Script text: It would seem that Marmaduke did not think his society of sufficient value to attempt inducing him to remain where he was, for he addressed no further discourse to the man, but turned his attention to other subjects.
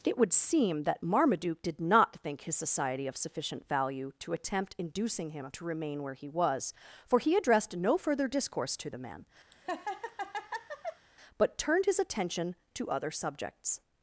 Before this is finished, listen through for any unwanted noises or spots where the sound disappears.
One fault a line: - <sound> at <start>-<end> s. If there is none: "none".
- laugh at 9.5-11.1 s